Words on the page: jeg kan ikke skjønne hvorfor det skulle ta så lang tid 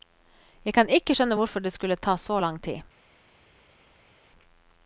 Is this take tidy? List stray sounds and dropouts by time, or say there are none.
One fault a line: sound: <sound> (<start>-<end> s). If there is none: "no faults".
no faults